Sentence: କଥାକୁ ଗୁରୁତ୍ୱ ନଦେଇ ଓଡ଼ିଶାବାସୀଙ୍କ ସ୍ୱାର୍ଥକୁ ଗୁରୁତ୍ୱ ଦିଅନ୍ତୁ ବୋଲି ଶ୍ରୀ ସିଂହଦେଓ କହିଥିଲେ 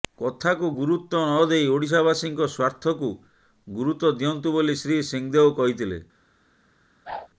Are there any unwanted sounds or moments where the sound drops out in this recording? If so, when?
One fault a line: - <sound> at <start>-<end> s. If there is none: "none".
- whoosh at 7.0-7.3 s